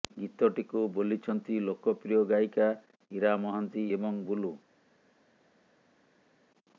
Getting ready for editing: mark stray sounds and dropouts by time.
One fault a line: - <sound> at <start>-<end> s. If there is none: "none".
none